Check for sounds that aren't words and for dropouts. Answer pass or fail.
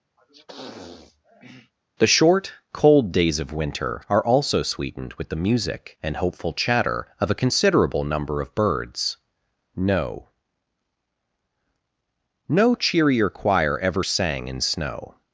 fail